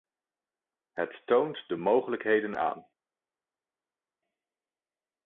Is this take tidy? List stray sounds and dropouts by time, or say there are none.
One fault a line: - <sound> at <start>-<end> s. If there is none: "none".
none